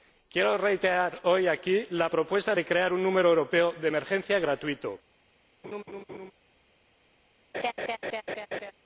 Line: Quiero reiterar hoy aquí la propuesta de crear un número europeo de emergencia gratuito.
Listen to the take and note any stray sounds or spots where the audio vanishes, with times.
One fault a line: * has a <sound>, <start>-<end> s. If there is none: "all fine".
* has a laugh, 5.6-6.3 s
* has a laugh, 7.5-8.7 s